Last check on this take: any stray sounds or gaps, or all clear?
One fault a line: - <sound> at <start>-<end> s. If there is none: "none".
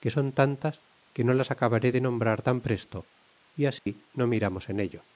- dropout at 3.8-3.9 s